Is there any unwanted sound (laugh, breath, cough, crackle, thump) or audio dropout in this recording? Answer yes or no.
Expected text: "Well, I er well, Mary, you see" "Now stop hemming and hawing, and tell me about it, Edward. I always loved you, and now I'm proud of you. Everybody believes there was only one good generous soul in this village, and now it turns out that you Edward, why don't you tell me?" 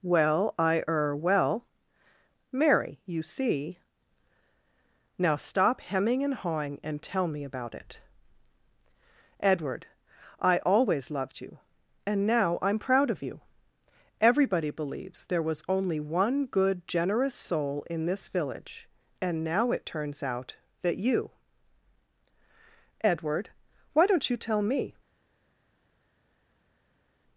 no